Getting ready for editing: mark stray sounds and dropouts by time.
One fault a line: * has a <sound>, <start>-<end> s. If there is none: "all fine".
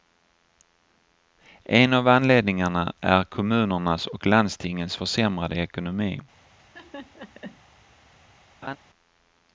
* has a laugh, 6.6-7.6 s
* has a laugh, 8.6-8.8 s